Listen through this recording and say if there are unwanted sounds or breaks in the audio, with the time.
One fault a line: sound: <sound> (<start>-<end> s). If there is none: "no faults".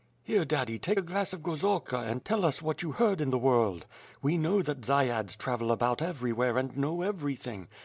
no faults